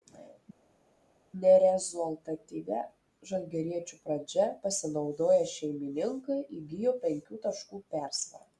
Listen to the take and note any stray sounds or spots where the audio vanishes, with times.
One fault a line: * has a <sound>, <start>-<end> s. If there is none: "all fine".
all fine